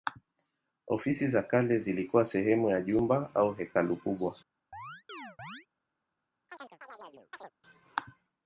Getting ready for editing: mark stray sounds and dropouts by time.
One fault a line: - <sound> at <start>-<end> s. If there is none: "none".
- chirp at 4.7-5.7 s
- chirp at 6.5-7.5 s